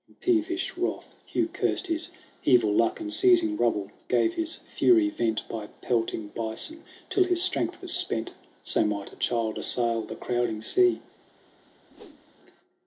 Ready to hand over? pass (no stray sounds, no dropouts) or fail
fail